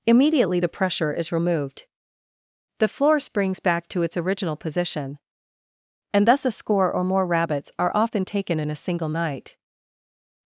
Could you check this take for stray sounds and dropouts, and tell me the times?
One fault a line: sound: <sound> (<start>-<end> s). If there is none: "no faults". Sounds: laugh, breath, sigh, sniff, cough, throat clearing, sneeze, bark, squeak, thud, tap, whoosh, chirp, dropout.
no faults